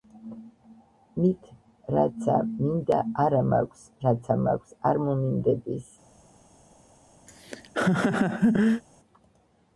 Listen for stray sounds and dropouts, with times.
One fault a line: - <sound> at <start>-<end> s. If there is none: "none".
- laugh at 7.3-8.8 s